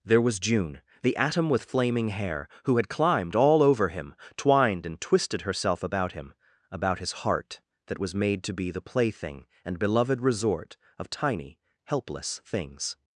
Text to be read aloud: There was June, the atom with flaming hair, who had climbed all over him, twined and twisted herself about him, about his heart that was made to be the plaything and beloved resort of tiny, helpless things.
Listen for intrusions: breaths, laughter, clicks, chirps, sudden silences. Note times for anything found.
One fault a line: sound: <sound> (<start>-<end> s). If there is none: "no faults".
no faults